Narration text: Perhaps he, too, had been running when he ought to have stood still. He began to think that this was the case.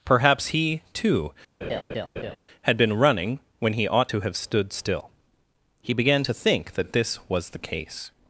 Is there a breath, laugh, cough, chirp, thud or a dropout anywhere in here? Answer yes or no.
yes